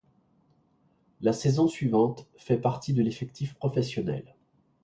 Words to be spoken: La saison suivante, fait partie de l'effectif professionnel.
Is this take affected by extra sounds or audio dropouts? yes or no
no